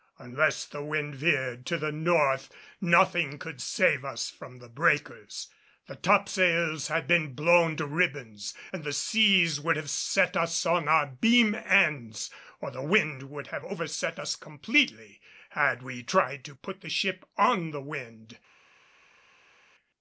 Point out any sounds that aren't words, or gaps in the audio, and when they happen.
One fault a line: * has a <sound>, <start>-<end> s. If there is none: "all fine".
all fine